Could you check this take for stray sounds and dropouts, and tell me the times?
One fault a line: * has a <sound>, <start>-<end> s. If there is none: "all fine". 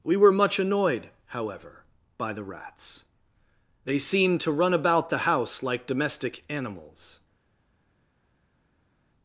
all fine